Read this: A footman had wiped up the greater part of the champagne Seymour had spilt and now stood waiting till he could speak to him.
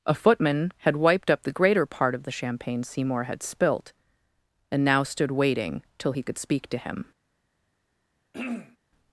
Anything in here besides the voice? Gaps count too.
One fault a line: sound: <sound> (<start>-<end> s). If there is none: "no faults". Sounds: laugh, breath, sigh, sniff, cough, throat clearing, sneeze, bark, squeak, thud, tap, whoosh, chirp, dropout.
sound: throat clearing (8.3-8.8 s)